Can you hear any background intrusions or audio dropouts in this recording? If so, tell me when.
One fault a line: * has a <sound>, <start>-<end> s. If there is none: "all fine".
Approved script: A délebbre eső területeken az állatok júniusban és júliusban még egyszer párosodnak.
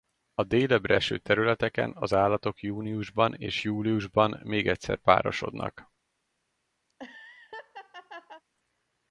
* has a laugh, 6.9-8.4 s